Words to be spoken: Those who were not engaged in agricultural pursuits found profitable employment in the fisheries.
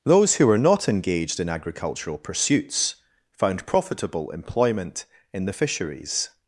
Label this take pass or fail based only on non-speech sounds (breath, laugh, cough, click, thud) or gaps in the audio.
pass